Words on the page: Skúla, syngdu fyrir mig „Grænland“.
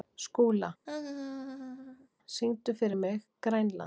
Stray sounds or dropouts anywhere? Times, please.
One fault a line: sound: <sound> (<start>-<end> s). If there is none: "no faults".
sound: laugh (0.8-2.1 s)